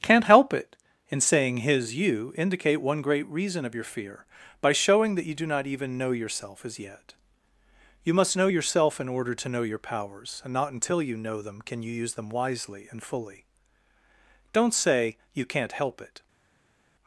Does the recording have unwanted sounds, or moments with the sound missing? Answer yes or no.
no